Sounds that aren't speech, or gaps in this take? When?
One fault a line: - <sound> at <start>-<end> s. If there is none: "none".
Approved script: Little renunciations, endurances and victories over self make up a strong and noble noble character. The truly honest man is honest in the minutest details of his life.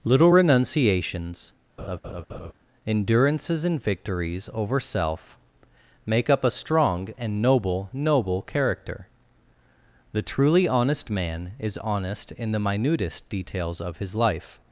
- laugh at 1.8-2.5 s